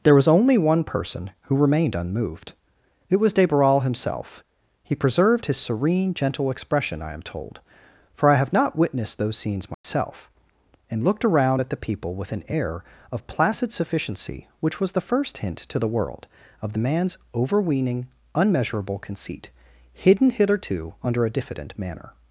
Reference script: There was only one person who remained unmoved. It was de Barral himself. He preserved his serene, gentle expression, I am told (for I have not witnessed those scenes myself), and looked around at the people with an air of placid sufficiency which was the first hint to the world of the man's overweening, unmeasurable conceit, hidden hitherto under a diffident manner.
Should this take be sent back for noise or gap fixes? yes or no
yes